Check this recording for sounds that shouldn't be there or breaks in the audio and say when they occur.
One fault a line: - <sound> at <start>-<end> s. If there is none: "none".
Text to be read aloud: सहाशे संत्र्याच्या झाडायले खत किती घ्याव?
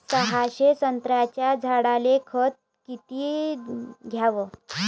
none